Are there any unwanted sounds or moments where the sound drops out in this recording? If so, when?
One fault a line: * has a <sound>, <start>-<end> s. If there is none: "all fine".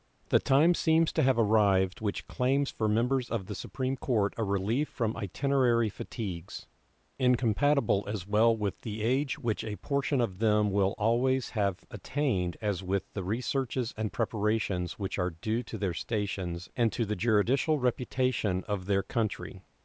all fine